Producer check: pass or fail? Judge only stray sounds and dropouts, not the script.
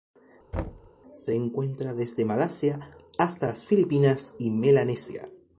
fail